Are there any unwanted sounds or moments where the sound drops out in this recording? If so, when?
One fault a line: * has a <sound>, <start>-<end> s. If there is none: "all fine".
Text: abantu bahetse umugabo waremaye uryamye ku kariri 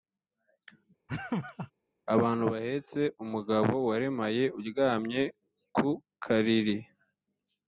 * has a laugh, 1.1-1.7 s